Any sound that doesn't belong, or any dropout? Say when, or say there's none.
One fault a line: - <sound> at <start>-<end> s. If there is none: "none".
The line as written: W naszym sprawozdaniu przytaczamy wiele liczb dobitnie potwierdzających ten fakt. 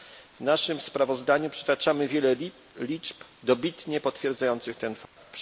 - dropout at 5.0-5.2 s